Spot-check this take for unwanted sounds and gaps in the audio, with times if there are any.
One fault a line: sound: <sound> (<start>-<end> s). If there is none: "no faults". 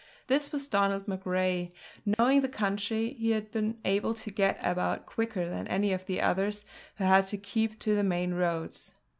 sound: dropout (2.1-2.2 s)